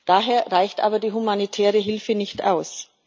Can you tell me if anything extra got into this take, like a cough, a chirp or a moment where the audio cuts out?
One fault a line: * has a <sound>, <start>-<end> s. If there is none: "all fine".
all fine